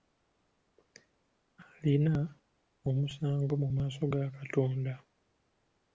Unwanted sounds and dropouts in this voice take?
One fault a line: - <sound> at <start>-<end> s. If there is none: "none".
none